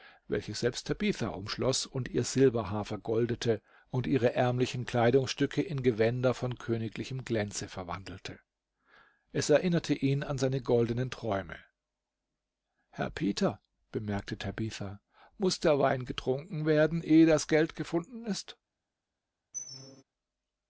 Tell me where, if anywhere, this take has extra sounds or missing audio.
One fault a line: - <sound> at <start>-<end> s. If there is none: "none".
- squeak at 19.5-20.0 s